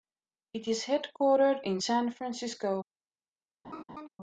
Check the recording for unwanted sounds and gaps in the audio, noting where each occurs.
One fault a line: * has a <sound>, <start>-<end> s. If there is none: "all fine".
* has a laugh, 3.6-4.1 s